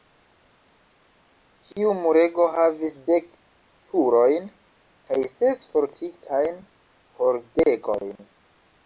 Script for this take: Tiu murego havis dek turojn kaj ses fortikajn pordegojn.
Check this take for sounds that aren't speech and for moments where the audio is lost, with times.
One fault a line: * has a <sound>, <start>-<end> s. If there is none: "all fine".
* has a dropout, 1.7-1.8 s